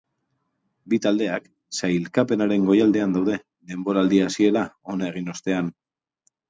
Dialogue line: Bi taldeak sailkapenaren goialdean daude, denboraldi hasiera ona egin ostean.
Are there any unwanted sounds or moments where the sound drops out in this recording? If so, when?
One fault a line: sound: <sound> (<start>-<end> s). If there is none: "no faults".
no faults